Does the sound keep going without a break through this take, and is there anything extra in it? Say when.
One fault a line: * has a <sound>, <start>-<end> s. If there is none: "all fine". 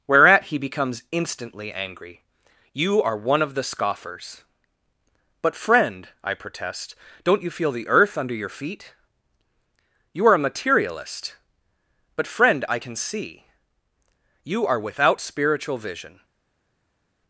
all fine